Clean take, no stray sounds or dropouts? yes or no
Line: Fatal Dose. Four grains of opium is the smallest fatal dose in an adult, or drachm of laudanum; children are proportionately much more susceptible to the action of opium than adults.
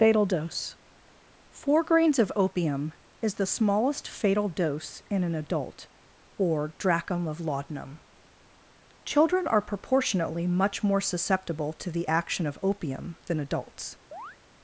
no